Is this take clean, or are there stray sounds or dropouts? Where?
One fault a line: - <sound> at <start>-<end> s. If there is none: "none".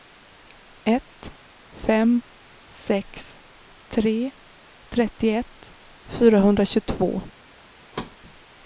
- thud at 7.9-8.2 s